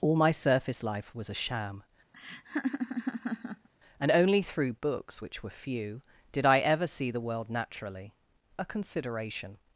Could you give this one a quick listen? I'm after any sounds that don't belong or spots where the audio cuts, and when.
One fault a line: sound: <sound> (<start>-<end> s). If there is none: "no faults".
sound: laugh (2.1-3.7 s)